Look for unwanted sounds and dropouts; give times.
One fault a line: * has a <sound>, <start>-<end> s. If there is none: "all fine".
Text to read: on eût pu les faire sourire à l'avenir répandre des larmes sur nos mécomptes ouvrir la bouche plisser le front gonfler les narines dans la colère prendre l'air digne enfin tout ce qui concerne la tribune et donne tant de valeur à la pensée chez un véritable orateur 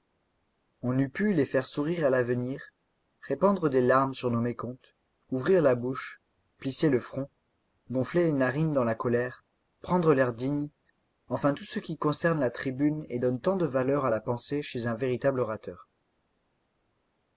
all fine